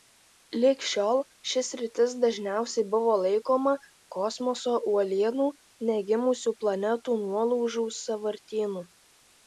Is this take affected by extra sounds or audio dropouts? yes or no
no